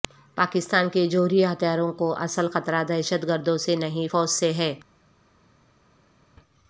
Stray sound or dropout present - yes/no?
no